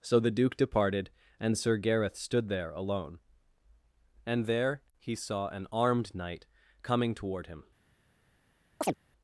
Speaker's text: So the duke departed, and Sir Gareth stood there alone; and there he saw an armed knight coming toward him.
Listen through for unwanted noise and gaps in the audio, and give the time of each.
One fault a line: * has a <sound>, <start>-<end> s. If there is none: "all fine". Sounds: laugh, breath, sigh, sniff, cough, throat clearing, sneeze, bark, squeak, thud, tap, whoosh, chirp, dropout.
* has a chirp, 8.8-8.9 s